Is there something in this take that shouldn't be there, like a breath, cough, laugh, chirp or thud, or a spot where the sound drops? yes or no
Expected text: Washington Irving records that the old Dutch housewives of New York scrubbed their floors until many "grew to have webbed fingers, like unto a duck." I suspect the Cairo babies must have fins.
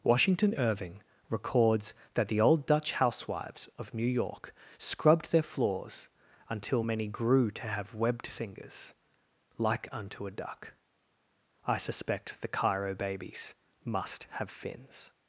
no